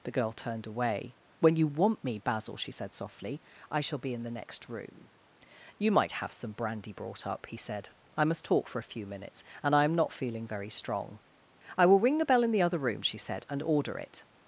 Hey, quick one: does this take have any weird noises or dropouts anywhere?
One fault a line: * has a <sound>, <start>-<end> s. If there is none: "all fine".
all fine